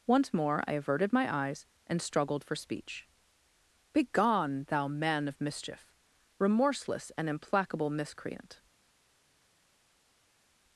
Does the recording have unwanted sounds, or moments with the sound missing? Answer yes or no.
no